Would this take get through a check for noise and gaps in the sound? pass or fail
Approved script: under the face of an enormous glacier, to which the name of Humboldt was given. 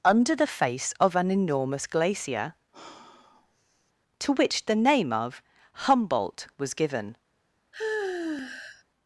fail